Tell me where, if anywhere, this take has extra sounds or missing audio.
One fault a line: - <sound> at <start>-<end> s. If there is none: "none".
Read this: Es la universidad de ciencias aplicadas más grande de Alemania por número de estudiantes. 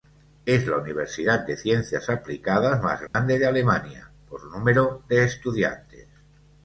- dropout at 3.1-3.1 s